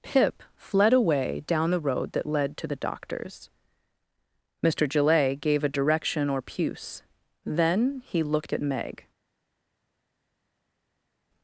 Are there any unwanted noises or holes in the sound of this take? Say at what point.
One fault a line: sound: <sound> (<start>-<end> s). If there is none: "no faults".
no faults